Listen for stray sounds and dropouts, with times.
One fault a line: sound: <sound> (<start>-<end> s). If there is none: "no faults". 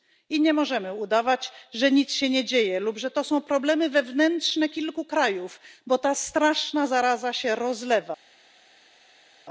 no faults